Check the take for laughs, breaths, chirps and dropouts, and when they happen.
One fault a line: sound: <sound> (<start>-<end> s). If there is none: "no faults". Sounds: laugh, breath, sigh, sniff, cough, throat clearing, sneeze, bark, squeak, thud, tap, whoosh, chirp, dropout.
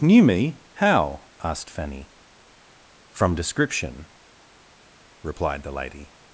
no faults